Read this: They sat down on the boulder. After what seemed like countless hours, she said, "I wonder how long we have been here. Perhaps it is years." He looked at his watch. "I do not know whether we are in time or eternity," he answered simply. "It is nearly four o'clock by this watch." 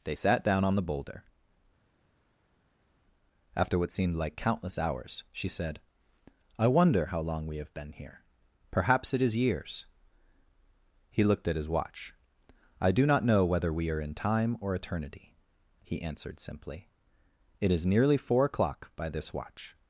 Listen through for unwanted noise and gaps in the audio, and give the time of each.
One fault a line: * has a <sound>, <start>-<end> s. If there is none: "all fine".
all fine